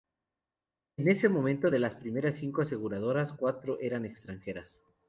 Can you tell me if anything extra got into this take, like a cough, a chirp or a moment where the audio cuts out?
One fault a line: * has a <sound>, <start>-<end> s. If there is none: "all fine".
all fine